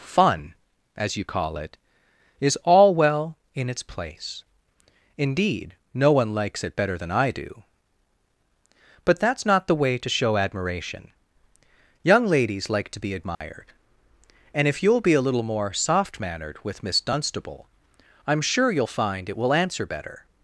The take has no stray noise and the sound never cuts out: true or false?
false